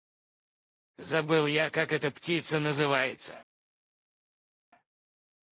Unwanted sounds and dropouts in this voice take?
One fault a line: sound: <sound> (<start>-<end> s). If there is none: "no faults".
no faults